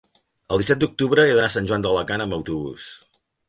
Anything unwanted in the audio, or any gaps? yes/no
no